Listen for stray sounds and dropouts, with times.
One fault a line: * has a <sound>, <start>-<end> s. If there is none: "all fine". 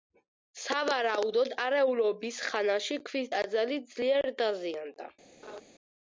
* has a laugh, 5.4-5.6 s